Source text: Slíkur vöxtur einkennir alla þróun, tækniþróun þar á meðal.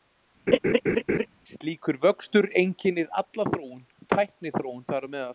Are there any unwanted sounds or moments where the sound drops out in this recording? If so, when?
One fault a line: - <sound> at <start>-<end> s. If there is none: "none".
- laugh at 0.5-1.3 s